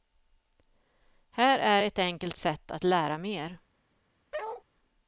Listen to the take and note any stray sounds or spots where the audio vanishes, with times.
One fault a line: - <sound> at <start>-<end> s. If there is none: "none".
- bark at 4.3-4.6 s